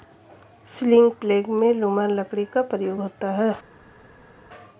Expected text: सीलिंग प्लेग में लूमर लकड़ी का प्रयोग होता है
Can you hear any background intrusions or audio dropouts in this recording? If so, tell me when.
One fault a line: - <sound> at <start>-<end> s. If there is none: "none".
none